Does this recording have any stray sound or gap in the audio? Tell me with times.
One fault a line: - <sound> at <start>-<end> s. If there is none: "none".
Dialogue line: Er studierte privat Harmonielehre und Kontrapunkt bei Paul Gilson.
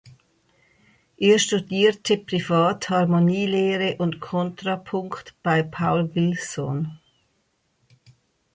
none